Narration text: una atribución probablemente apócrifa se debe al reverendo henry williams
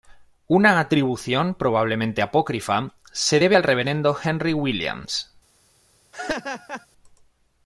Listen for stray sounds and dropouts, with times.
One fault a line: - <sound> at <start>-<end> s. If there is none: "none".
- laugh at 6.1-6.9 s